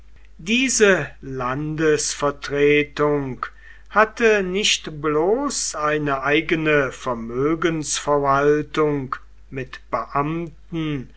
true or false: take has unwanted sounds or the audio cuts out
false